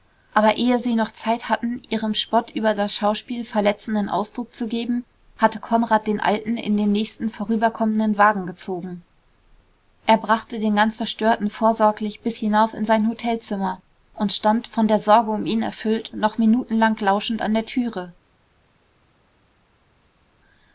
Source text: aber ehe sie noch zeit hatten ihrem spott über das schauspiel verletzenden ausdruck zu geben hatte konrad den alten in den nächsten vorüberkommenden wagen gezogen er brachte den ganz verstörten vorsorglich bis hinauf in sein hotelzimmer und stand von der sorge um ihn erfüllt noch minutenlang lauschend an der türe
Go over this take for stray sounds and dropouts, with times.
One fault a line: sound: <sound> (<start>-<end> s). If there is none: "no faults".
no faults